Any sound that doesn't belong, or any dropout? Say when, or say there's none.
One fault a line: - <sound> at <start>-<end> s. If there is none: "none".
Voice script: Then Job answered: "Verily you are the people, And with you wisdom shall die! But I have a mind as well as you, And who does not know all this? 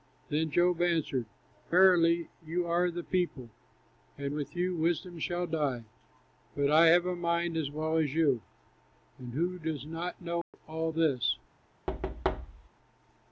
- dropout at 10.4-10.5 s
- thud at 11.9-12.7 s